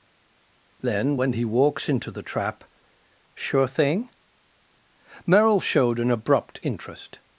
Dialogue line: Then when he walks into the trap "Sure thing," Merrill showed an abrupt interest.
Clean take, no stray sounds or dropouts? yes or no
yes